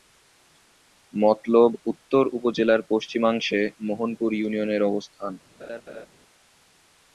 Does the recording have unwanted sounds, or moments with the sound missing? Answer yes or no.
yes